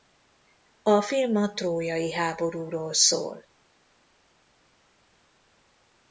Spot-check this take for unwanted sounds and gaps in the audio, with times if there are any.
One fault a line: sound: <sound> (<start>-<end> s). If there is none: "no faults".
no faults